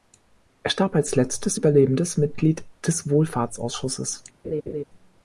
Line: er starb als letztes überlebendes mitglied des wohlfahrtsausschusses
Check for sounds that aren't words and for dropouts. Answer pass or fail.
fail